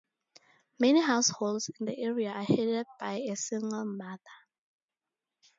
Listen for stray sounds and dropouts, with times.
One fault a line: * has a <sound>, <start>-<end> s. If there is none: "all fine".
all fine